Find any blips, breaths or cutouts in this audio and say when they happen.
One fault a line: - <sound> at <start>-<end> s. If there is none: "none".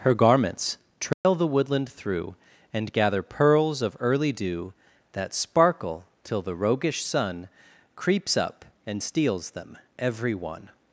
- dropout at 1.1-1.2 s